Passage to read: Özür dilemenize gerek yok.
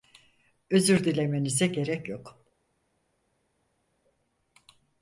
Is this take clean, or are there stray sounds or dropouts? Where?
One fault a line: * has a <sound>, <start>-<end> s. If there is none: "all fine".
all fine